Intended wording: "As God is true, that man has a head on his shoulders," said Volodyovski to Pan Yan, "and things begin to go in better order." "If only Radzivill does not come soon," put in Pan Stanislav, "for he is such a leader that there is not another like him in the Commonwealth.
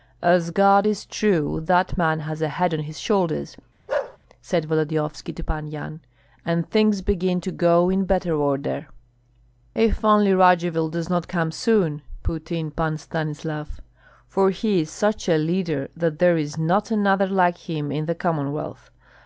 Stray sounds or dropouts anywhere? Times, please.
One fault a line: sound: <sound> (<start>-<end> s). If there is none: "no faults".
sound: bark (3.9-4.2 s)